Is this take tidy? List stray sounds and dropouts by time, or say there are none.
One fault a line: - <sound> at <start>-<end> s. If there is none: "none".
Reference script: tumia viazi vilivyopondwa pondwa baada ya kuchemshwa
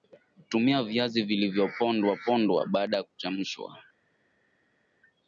none